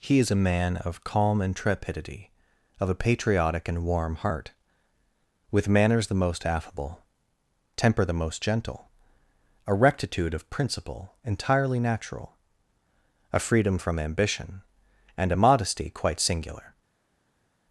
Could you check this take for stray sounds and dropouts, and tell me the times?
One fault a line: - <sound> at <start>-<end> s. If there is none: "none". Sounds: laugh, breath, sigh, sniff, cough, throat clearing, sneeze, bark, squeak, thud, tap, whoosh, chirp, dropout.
none